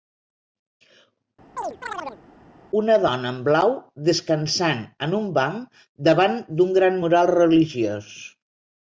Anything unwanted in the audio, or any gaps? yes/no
yes